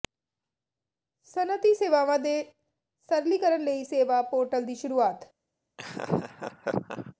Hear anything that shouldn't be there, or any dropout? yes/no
yes